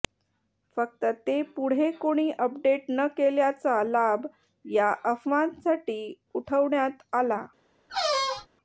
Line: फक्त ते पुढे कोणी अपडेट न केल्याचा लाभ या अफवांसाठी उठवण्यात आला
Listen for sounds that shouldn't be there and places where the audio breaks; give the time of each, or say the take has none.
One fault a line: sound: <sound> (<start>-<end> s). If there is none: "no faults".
sound: squeak (7.9-8.5 s)